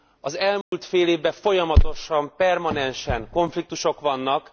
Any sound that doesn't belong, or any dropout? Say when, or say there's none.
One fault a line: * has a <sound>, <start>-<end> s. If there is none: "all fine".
* has a dropout, 0.6-0.7 s